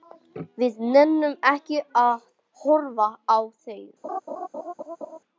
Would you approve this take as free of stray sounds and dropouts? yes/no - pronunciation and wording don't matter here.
no